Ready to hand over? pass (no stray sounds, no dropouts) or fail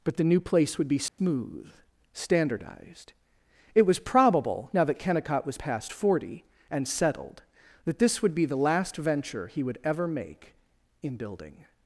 fail